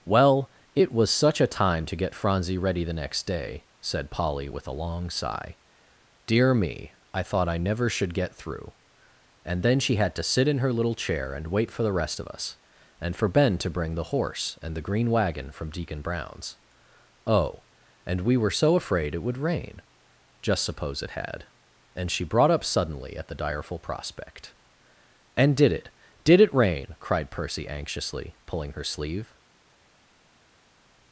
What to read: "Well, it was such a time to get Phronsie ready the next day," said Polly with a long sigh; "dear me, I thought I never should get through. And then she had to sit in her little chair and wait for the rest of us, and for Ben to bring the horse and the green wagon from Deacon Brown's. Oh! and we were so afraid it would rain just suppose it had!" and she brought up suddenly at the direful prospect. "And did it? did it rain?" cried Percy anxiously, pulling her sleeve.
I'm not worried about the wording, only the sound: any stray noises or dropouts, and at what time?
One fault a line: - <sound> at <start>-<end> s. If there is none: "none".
none